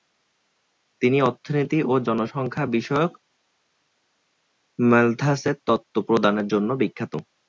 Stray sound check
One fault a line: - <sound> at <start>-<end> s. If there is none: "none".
none